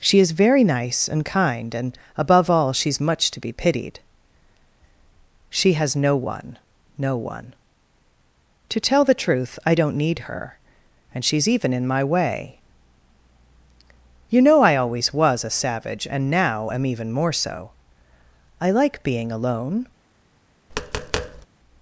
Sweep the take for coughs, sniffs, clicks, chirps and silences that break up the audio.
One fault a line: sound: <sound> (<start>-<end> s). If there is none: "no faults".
sound: tap (20.7-21.5 s)